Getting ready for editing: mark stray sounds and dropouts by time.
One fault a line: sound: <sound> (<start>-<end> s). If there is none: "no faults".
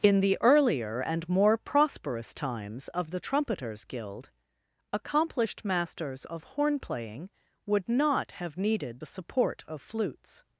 no faults